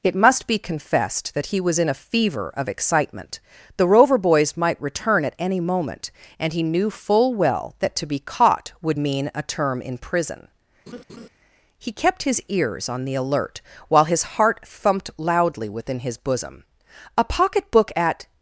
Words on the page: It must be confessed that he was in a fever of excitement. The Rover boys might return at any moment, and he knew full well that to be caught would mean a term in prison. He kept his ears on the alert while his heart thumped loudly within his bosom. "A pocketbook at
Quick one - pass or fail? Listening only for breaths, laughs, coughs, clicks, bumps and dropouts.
fail